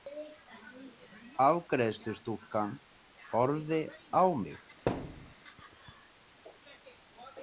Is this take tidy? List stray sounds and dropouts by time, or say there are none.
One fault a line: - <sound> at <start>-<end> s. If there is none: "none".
- thud at 4.9-5.3 s